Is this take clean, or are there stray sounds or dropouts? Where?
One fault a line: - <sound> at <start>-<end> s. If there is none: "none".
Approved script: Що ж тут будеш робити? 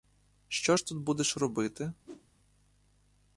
- whoosh at 2.0-2.3 s